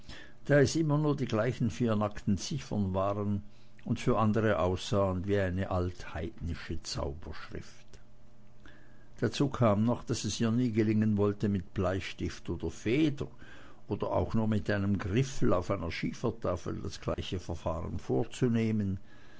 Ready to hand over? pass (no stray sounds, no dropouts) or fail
fail